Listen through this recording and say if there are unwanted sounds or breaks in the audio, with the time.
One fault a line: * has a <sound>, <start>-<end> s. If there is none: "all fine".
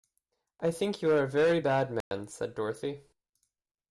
* has a dropout, 2.0-2.1 s